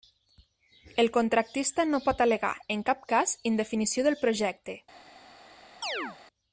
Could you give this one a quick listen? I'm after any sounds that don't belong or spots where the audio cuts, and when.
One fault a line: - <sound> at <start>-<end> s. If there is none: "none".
- chirp at 5.8-6.2 s